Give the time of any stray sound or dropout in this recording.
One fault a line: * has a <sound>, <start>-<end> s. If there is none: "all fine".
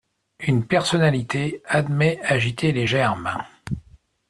all fine